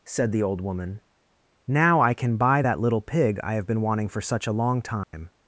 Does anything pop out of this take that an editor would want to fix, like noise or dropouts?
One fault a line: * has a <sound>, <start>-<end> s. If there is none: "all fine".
* has a dropout, 5.0-5.1 s